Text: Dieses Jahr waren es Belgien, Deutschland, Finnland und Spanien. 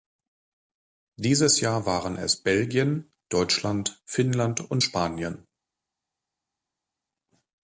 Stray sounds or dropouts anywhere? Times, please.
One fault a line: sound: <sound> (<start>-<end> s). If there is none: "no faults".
no faults